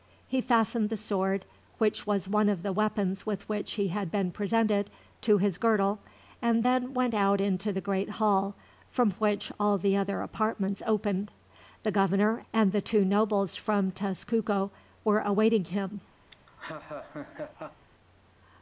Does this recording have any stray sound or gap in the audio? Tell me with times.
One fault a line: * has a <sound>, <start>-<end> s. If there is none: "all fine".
* has a laugh, 16.3-17.9 s